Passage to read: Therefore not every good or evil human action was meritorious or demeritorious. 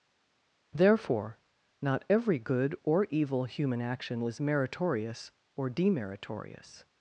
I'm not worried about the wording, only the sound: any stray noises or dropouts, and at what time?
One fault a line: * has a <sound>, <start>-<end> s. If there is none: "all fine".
all fine